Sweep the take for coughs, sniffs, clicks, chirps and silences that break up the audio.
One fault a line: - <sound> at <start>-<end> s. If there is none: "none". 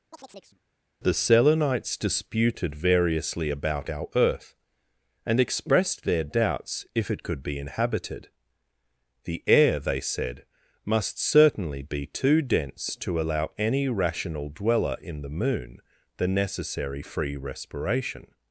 - chirp at 0.1-0.6 s